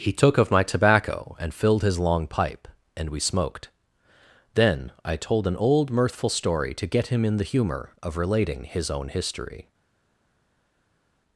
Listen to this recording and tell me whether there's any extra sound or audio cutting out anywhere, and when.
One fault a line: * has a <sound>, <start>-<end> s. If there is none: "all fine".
all fine